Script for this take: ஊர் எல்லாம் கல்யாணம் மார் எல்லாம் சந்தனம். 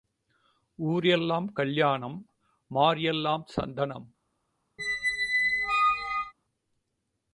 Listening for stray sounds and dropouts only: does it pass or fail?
fail